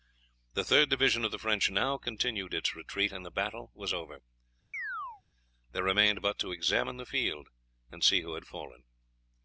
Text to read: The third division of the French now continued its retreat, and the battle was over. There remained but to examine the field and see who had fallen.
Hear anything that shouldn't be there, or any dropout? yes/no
yes